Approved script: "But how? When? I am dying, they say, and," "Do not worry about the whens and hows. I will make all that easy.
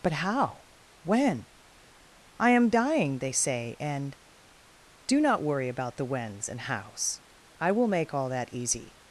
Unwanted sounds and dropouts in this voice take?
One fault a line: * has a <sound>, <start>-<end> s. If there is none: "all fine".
all fine